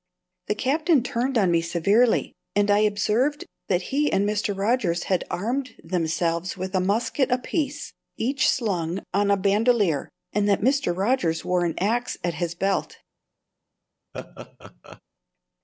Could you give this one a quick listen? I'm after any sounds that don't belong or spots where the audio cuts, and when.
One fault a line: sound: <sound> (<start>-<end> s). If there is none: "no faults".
sound: laugh (14.1-15.0 s)